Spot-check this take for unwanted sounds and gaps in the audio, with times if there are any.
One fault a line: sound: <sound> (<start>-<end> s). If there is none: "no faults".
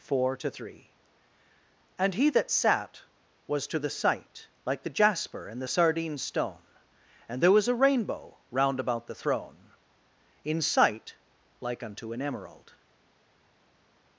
no faults